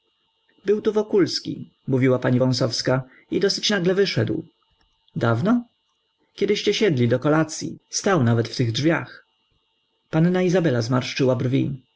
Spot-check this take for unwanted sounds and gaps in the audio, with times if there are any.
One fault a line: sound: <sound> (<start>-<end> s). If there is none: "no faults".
no faults